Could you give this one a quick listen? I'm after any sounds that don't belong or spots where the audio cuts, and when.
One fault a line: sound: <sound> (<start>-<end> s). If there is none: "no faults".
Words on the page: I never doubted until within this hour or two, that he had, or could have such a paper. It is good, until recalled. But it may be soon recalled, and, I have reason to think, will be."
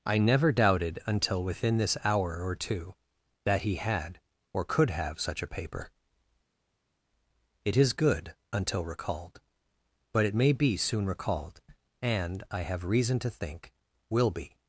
no faults